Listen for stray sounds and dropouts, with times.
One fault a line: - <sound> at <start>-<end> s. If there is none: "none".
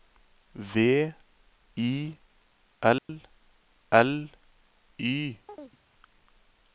- dropout at 3.0-3.1 s
- chirp at 5.5-5.8 s